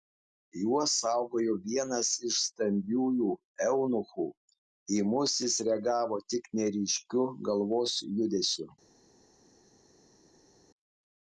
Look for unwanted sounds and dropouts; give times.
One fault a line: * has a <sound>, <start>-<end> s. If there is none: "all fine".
all fine